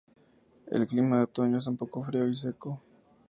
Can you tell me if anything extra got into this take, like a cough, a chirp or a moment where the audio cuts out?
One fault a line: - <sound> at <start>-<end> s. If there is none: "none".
none